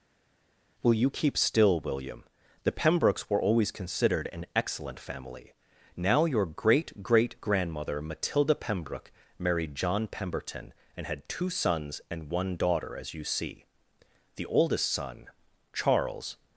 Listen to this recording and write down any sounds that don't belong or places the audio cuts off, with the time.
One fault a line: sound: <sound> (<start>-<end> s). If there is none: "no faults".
no faults